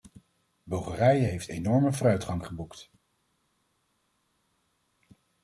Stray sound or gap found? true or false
false